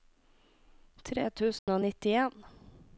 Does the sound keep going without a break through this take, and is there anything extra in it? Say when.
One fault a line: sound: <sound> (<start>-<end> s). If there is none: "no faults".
sound: dropout (1.6-1.7 s)